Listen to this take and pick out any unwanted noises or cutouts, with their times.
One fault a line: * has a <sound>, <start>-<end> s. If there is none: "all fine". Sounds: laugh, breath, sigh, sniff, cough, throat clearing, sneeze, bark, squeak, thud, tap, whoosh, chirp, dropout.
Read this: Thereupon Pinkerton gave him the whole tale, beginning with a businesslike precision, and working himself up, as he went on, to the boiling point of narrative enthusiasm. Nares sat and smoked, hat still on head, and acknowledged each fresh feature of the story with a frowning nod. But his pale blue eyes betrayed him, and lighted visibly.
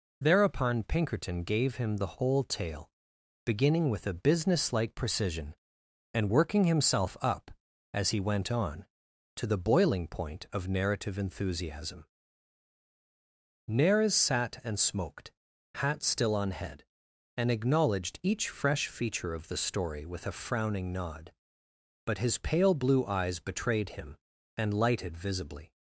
all fine